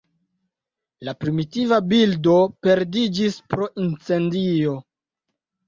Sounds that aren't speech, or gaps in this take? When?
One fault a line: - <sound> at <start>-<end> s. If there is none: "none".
none